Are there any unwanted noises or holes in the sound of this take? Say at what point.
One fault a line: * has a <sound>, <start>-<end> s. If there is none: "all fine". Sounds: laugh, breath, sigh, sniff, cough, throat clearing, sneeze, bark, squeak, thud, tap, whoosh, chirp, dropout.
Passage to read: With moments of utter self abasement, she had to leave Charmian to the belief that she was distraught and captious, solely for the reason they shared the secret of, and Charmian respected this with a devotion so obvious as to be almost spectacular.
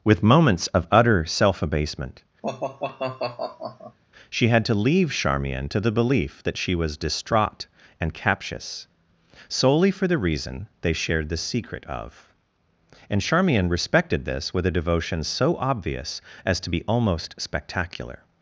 * has a sigh, 2.4-4.0 s